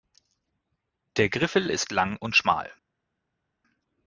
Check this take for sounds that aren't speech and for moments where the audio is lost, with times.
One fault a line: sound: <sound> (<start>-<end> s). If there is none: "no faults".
no faults